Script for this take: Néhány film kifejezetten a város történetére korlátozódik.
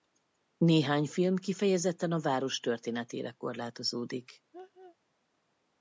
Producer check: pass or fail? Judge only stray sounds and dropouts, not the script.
fail